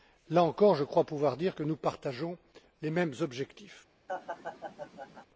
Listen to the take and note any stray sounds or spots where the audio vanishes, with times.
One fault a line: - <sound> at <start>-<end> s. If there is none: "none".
- laugh at 4.1-5.3 s